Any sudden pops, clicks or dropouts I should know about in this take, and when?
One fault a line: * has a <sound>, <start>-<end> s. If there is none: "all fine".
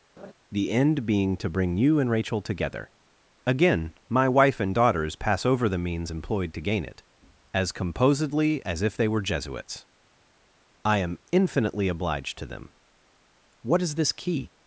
* has a laugh, 0.2-0.3 s